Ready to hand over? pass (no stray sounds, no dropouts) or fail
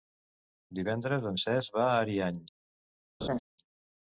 fail